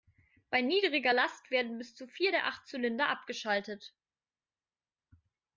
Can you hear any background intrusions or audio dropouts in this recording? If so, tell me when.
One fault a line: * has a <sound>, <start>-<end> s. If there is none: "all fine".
all fine